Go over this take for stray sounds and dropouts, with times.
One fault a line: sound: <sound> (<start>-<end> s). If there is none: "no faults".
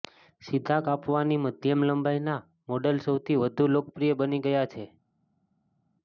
no faults